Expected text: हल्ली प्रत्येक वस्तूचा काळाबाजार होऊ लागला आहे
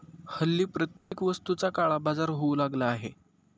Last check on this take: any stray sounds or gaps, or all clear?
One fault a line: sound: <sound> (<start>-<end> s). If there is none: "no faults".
sound: dropout (1.0-1.1 s)